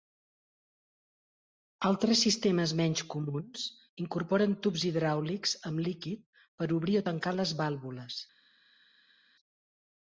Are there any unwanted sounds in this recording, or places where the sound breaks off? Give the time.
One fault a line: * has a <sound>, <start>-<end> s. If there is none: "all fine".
all fine